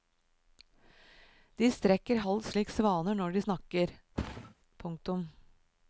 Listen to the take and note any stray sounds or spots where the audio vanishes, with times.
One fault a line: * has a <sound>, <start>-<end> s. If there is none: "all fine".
* has a thud, 4.2-4.5 s